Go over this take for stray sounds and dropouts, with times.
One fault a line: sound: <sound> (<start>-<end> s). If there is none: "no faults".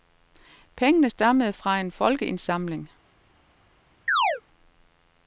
sound: chirp (4.1-4.4 s)